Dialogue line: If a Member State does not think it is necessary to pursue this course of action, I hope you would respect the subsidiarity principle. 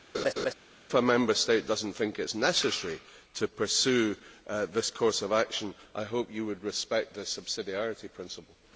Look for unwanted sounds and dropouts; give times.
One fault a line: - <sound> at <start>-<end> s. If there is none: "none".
- laugh at 0.1-0.5 s